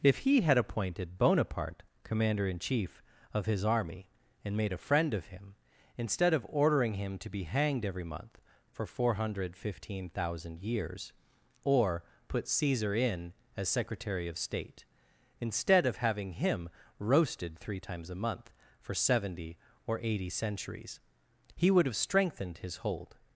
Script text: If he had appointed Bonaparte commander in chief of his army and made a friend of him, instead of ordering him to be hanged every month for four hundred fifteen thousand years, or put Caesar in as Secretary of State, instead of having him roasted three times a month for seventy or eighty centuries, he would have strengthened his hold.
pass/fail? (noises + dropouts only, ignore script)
pass